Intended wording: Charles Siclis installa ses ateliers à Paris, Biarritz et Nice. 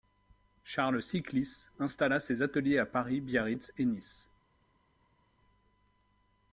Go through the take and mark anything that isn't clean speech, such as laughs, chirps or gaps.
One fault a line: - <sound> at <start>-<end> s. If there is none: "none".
none